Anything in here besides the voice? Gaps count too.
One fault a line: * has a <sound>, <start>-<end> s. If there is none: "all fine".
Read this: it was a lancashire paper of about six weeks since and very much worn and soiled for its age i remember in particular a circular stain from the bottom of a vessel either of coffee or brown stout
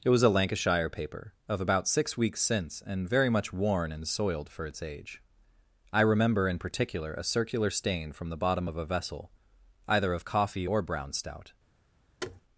* has a thud, 12.2-12.4 s